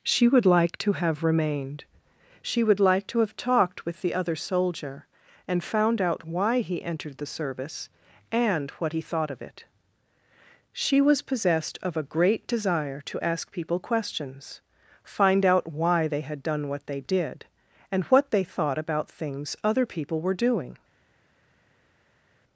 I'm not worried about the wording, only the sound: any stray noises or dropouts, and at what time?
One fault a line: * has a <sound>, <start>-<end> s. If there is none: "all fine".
all fine